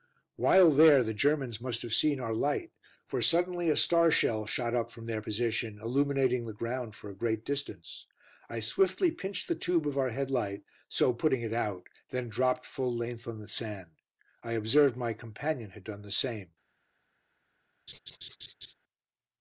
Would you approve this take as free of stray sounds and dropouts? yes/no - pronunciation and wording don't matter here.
no